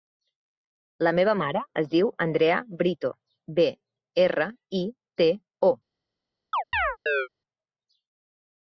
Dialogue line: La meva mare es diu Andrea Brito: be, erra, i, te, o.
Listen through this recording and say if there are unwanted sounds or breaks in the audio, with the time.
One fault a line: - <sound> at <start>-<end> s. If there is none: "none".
- chirp at 6.5-7.3 s